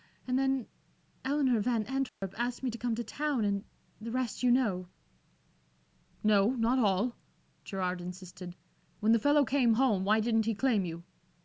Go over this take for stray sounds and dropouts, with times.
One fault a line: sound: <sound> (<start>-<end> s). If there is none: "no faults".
sound: dropout (2.1-2.2 s)